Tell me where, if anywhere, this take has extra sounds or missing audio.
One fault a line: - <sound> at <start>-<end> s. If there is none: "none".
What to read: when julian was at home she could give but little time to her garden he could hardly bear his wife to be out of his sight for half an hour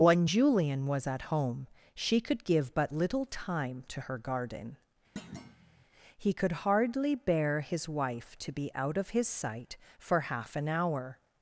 - thud at 5.2-5.9 s